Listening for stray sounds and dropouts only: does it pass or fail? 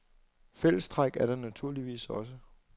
pass